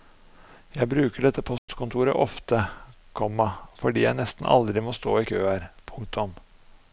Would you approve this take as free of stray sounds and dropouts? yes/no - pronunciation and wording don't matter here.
no